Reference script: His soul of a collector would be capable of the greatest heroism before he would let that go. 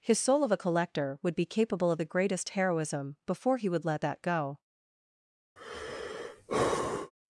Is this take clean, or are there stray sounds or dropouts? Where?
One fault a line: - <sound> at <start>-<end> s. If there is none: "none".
- sigh at 5.6-7.1 s